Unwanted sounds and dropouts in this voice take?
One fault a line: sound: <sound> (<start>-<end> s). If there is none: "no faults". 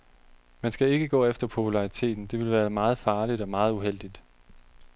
no faults